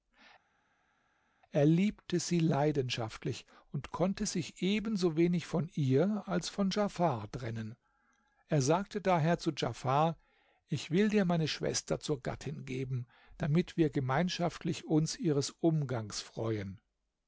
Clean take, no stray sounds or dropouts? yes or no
yes